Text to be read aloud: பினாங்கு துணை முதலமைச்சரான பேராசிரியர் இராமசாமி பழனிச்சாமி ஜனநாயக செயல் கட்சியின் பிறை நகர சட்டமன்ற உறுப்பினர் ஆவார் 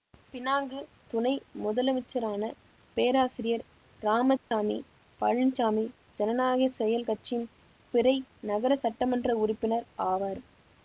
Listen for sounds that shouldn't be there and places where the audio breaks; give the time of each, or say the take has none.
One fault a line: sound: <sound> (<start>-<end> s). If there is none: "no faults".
sound: dropout (4.4-4.5 s)